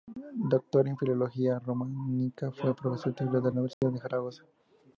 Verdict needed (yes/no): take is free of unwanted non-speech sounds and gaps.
no